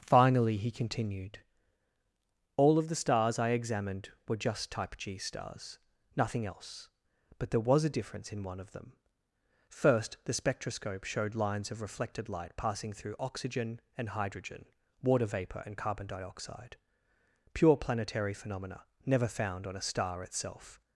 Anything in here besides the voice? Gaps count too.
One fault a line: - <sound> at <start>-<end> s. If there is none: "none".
none